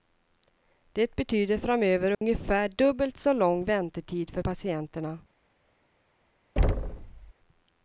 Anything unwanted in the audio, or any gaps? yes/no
yes